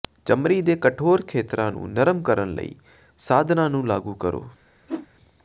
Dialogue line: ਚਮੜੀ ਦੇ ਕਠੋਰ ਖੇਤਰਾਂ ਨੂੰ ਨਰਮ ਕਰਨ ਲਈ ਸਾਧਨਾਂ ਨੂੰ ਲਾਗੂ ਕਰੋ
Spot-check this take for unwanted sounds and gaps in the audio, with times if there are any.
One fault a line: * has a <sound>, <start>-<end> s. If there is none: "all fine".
* has a whoosh, 4.9-5.1 s